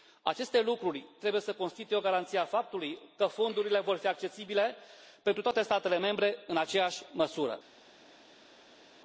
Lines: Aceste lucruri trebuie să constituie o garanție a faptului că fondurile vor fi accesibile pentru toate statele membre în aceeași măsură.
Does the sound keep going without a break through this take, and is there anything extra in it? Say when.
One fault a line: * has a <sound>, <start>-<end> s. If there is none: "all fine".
all fine